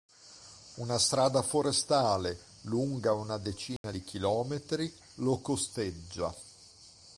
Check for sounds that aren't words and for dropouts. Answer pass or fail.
fail